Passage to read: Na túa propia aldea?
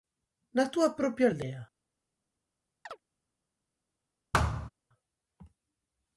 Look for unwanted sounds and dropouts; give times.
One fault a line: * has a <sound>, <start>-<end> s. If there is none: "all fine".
* has a chirp, 2.9-3.0 s
* has a thud, 4.3-4.7 s